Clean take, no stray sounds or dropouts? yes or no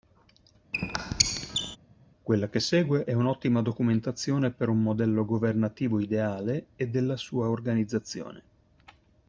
no